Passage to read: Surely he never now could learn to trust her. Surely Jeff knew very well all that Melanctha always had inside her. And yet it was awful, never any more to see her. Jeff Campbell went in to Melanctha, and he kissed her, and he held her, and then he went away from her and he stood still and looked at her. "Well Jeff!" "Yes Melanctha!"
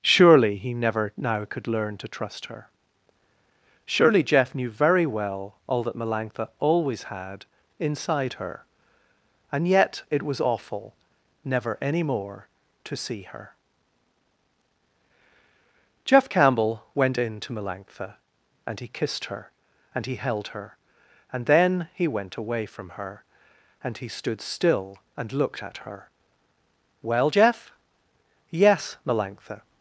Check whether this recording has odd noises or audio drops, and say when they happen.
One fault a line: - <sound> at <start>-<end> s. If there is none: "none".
none